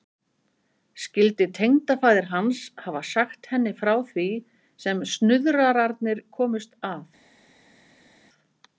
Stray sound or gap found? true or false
false